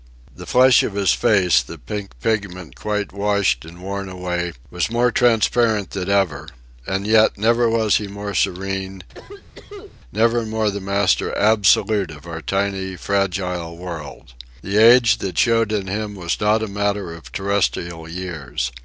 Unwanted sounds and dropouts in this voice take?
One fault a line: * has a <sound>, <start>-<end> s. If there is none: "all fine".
* has a cough, 9.1-10.0 s